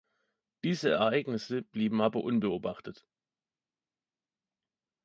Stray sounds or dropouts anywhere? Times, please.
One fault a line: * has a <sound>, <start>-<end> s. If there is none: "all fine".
all fine